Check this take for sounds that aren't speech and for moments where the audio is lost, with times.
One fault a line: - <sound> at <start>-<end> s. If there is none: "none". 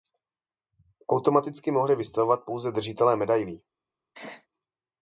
- sneeze at 4.1-4.5 s